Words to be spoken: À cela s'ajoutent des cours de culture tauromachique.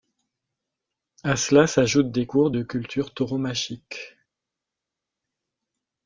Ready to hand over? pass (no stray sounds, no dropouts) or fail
pass